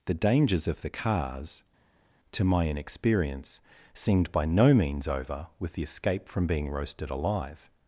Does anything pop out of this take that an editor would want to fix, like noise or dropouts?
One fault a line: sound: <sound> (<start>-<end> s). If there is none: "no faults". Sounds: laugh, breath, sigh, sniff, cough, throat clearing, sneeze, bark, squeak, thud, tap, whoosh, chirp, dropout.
no faults